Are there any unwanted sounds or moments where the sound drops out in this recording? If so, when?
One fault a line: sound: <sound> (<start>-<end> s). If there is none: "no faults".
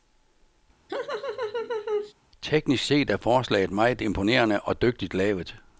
sound: laugh (0.9-2.1 s)